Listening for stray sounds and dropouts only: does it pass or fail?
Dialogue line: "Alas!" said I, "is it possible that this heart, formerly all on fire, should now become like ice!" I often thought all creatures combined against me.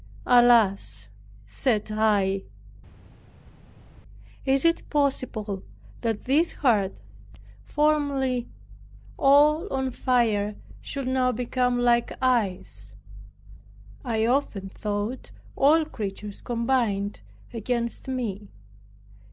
pass